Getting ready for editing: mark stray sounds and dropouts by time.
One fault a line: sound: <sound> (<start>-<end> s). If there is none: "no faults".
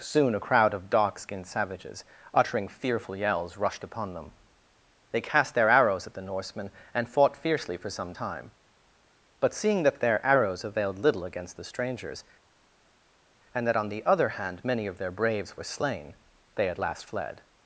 no faults